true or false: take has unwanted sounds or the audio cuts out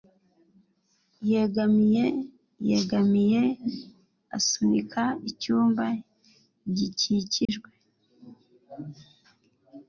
true